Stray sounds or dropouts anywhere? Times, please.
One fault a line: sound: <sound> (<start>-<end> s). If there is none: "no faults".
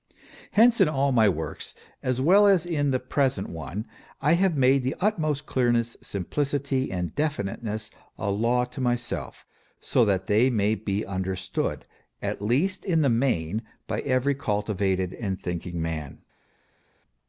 no faults